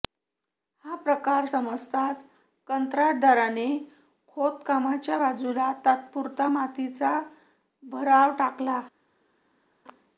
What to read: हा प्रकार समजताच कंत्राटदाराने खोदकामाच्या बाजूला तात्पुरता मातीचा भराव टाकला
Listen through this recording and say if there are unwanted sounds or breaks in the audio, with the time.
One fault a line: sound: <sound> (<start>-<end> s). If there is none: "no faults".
no faults